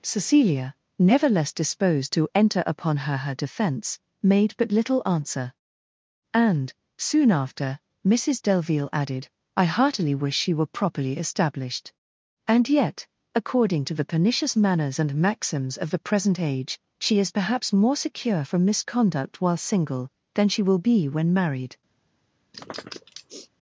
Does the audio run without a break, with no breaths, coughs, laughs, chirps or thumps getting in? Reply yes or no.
no